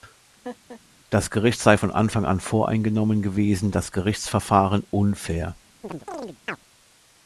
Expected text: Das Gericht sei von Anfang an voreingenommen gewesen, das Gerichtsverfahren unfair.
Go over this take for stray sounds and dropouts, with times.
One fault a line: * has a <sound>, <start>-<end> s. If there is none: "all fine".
* has a laugh, 0.4-0.8 s
* has a chirp, 5.8-6.6 s